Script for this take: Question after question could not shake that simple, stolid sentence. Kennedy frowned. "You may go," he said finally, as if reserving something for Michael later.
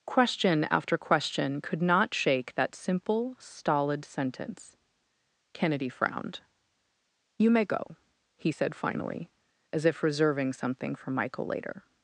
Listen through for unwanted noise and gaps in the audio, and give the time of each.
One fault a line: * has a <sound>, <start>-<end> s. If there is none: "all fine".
all fine